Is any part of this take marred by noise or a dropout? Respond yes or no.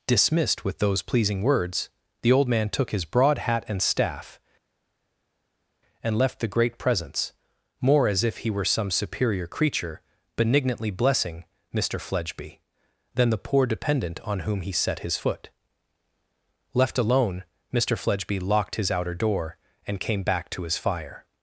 no